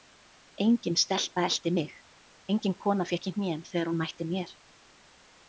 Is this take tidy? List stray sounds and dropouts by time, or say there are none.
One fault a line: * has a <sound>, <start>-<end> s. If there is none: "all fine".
all fine